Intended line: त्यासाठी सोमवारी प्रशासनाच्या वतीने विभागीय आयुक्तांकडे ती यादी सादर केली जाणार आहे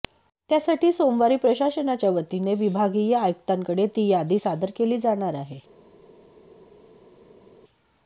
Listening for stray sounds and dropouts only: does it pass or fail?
pass